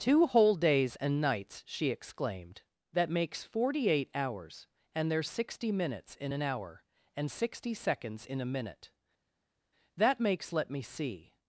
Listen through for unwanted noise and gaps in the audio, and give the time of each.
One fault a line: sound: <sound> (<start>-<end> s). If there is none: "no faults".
no faults